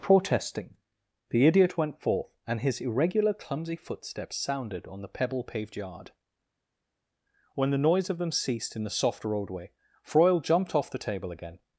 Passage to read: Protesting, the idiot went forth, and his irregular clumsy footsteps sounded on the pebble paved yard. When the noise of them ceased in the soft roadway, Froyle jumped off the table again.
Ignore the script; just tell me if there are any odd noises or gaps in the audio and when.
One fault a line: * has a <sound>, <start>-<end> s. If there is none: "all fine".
all fine